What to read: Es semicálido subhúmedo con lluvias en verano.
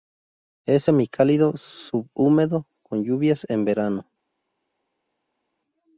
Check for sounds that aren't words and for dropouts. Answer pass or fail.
pass